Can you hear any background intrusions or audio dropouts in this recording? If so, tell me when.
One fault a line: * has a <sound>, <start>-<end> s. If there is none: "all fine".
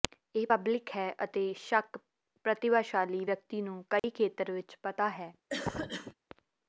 * has a dropout, 4.0-4.0 s
* has a cough, 5.5-6.1 s